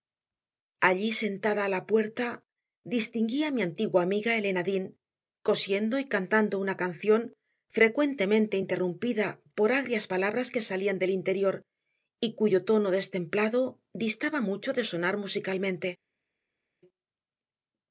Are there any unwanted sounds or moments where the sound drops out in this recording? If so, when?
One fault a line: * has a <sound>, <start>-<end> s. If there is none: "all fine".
all fine